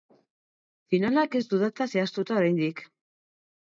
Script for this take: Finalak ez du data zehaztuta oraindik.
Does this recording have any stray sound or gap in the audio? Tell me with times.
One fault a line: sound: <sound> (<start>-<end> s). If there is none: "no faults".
no faults